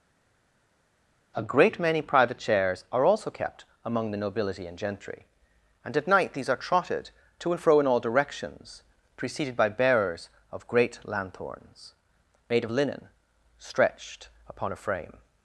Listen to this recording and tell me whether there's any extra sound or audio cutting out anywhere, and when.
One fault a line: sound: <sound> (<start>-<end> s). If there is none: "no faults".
no faults